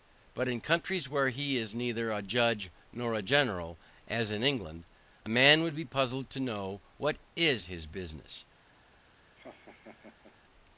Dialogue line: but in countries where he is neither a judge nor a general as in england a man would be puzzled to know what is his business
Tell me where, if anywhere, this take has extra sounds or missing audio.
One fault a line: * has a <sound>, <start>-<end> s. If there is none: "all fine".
* has a laugh, 9.4-10.4 s